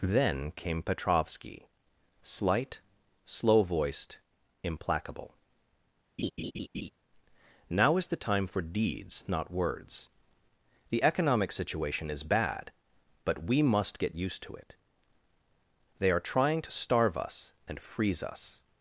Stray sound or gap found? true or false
true